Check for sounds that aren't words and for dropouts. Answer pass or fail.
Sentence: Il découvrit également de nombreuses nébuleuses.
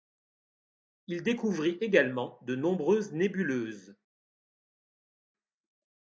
pass